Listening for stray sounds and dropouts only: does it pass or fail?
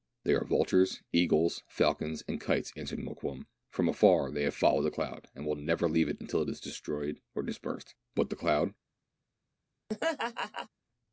fail